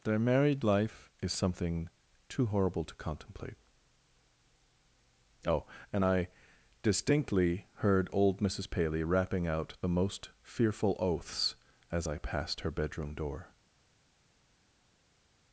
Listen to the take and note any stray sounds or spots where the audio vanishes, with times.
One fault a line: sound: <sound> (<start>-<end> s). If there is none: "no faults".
no faults